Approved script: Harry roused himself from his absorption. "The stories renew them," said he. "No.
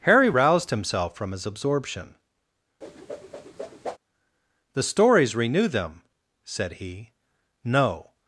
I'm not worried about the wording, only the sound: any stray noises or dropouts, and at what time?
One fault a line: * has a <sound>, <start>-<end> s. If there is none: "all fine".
* has a whoosh, 2.8-4.0 s